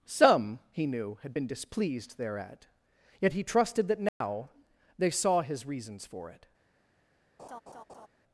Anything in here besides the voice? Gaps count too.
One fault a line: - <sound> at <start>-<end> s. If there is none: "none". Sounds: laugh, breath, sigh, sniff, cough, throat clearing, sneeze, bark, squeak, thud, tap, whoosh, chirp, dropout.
- dropout at 4.1-4.2 s
- laugh at 7.4-8.1 s